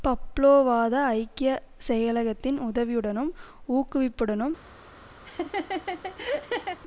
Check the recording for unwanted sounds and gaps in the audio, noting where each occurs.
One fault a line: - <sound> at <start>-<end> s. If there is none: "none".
- laugh at 5.3-6.8 s